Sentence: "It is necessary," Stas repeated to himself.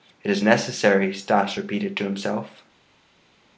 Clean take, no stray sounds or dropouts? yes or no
yes